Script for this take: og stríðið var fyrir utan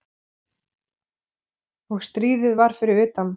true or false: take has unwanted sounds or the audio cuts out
false